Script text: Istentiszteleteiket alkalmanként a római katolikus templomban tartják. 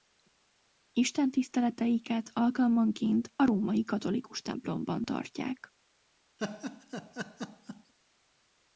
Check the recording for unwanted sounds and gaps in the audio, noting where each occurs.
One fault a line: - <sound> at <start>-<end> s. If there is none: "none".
- laugh at 6.4-7.9 s